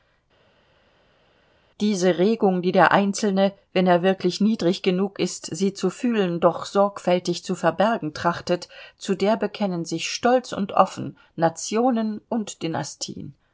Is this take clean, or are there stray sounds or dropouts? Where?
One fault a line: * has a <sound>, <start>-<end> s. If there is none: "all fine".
all fine